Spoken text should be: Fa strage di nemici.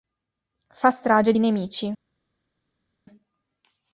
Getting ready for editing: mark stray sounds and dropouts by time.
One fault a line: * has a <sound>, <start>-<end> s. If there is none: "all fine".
all fine